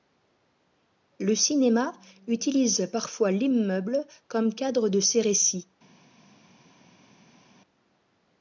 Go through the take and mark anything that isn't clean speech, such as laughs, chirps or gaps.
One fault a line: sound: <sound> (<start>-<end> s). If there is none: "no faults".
no faults